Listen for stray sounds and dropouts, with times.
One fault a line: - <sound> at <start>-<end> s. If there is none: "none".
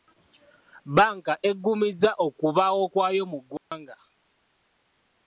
- dropout at 3.6-3.7 s